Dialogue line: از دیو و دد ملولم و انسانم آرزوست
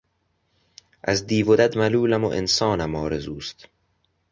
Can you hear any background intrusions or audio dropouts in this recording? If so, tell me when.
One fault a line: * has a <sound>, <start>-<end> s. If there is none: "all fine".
all fine